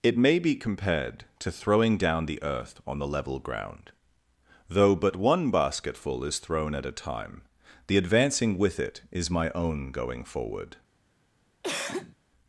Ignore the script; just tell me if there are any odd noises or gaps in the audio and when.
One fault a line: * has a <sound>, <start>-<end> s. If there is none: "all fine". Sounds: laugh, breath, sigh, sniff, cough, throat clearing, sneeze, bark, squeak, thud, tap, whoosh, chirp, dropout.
* has a cough, 11.6-12.2 s